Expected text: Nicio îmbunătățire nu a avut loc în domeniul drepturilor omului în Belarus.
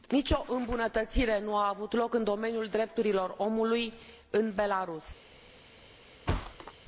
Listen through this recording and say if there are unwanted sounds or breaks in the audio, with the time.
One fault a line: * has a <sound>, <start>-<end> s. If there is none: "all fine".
* has a thud, 6.3-6.7 s